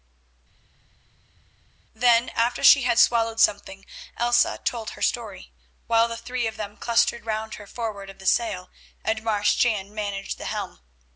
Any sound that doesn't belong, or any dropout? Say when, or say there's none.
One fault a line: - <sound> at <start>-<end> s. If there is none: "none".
none